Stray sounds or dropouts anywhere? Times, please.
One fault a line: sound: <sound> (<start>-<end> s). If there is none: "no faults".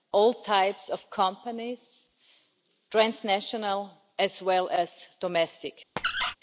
sound: squeak (6.0-6.4 s)